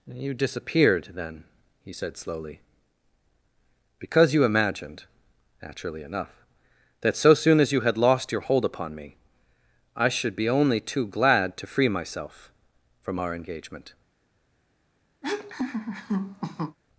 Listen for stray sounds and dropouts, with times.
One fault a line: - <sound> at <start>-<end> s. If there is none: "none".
- laugh at 15.2-16.8 s